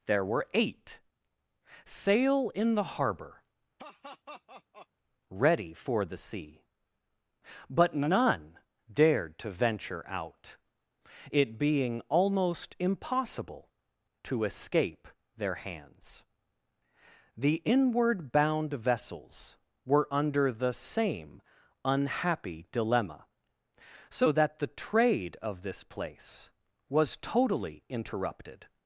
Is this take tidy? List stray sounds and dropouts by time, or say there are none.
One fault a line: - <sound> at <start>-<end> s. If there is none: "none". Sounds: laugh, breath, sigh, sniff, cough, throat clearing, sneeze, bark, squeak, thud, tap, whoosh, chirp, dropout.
- laugh at 3.8-4.9 s